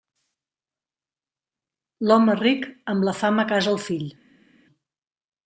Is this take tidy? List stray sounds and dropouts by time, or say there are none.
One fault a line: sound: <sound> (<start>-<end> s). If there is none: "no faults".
no faults